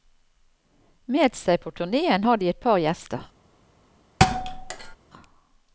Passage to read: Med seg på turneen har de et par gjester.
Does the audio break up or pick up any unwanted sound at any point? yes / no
yes